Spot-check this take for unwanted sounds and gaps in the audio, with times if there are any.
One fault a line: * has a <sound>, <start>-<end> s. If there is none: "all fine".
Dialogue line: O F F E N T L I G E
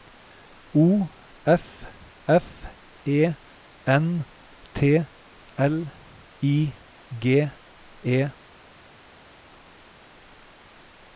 all fine